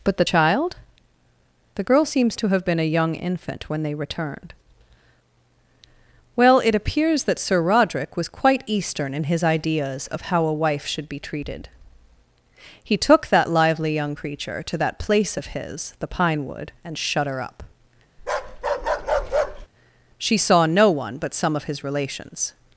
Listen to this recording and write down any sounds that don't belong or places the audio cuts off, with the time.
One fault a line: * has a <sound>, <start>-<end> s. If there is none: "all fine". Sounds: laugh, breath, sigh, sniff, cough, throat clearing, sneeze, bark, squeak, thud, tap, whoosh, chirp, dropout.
* has a bark, 18.2-19.7 s